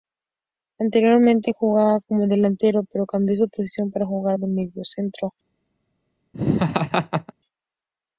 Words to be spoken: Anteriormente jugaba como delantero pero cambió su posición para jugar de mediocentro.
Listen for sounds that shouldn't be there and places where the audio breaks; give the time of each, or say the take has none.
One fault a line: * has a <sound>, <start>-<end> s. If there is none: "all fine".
* has a laugh, 6.3-7.3 s